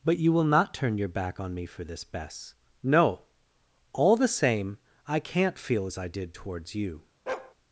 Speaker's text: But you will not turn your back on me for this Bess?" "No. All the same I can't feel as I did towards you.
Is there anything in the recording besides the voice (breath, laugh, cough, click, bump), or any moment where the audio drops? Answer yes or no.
yes